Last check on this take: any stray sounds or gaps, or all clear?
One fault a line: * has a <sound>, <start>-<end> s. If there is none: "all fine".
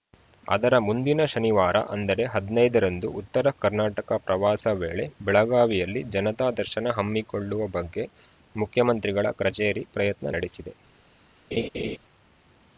* has a laugh, 11.5-12.0 s